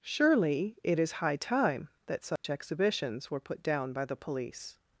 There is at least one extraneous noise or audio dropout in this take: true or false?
true